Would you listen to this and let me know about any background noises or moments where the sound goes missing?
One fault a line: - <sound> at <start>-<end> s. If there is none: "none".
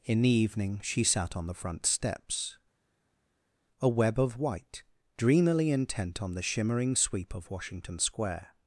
none